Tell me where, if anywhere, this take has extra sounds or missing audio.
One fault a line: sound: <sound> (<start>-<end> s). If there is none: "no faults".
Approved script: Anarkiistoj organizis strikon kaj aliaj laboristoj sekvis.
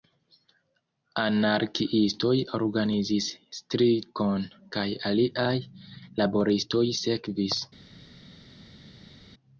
no faults